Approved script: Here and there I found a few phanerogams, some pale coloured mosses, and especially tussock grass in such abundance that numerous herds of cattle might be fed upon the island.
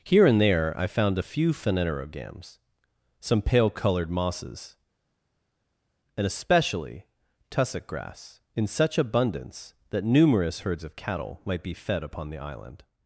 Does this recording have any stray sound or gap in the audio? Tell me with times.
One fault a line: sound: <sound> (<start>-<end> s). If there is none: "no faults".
no faults